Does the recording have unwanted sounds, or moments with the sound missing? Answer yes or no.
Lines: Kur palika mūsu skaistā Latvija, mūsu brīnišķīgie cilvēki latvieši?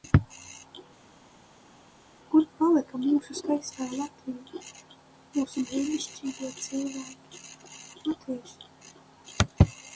no